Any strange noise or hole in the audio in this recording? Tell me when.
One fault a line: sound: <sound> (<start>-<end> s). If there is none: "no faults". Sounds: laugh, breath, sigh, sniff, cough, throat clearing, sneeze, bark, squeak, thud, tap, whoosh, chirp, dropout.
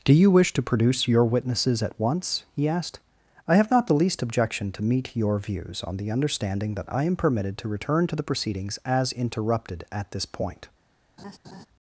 sound: laugh (11.2-11.7 s)